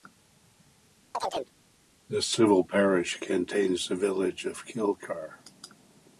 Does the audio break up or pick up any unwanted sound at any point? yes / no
yes